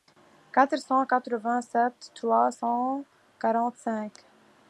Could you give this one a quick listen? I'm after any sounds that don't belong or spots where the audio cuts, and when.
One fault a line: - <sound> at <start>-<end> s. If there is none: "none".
none